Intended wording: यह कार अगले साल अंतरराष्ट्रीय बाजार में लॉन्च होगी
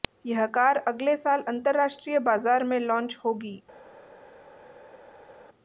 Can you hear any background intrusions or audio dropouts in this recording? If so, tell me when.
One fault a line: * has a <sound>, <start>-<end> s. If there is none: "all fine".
all fine